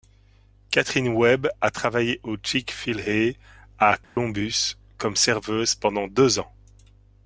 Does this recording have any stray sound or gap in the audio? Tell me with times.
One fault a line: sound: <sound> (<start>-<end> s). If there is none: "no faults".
sound: dropout (4.0-4.2 s)